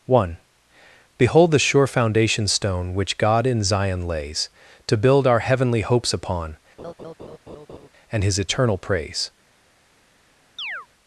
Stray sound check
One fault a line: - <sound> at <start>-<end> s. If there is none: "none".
- laugh at 6.8-7.9 s
- chirp at 10.6-10.9 s